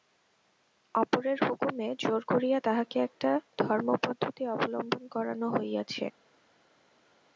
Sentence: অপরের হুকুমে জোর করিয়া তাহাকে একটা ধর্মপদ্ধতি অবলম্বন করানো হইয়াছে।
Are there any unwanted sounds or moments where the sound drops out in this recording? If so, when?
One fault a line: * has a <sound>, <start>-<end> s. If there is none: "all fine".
all fine